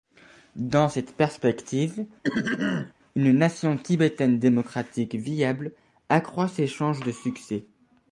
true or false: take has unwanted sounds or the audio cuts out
true